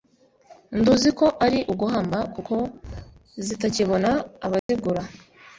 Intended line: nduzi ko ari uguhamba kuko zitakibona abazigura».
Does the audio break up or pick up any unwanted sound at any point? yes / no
yes